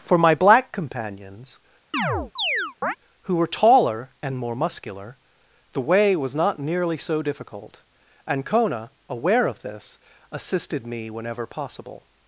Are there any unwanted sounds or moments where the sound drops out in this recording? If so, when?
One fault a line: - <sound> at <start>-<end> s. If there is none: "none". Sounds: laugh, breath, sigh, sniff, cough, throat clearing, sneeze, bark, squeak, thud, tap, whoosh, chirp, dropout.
- chirp at 1.9-3.0 s